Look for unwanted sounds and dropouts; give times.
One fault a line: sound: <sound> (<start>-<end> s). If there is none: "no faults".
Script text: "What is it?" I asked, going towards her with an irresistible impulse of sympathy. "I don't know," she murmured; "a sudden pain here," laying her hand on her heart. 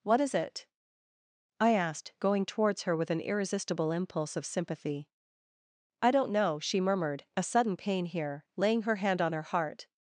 no faults